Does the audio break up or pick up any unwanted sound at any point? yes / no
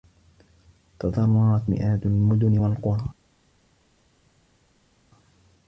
no